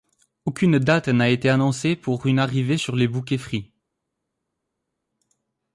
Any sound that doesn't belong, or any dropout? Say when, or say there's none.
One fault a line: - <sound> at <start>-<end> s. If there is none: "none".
none